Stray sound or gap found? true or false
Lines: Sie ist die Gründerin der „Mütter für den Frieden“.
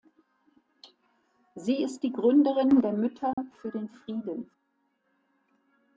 true